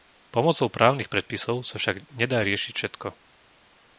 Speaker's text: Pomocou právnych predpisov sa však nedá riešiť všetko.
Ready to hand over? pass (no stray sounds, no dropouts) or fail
pass